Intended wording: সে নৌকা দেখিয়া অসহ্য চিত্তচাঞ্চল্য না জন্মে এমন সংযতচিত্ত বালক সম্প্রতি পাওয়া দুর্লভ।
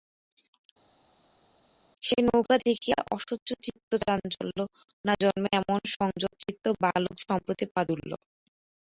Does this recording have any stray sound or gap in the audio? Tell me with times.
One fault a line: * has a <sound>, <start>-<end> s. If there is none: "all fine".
all fine